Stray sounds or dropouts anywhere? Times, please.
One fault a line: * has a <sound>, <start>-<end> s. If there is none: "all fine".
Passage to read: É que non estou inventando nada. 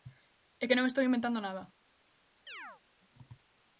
* has a chirp, 2.5-2.8 s